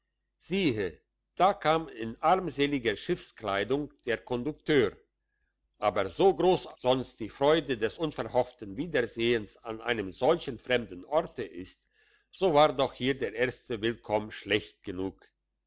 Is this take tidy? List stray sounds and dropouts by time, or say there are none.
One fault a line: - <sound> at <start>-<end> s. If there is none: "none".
none